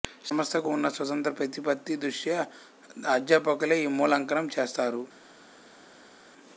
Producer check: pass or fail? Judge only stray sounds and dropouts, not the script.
pass